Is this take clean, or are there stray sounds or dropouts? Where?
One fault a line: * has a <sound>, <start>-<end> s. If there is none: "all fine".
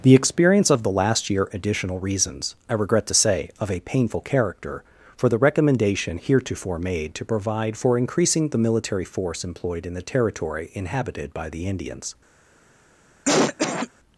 * has a cough, 13.3-13.9 s